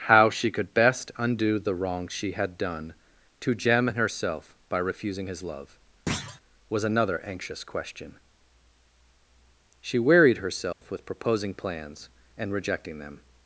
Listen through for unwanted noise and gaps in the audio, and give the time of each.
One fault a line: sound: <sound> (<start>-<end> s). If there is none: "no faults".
sound: thud (6.1-6.4 s)
sound: dropout (10.7-10.8 s)